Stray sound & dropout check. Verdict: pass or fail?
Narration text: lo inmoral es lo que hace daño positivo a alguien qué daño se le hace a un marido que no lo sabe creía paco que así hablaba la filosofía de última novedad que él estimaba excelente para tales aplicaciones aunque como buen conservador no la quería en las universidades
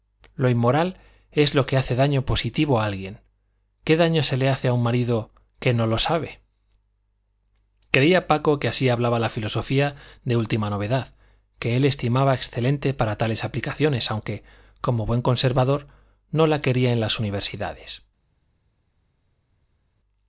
pass